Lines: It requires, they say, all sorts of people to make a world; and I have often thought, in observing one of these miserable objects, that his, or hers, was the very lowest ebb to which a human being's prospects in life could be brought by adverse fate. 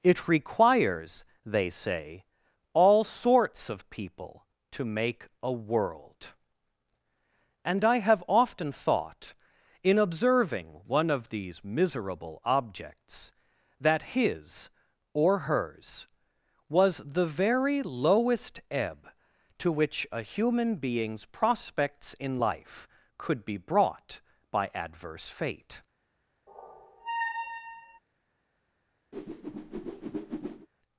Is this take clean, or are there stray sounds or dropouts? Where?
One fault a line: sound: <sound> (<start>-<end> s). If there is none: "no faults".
sound: squeak (26.5-28.0 s)
sound: whoosh (29.1-30.7 s)